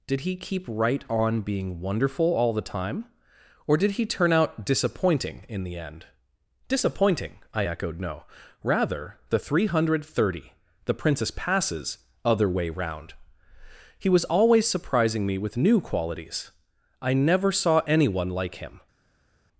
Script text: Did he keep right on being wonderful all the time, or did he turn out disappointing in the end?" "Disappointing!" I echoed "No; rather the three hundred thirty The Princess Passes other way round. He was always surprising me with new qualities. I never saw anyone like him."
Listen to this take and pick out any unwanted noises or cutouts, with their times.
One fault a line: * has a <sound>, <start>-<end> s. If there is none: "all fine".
all fine